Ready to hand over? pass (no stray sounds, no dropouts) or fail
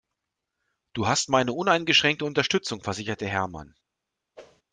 fail